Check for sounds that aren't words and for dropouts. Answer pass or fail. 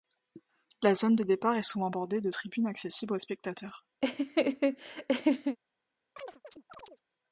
fail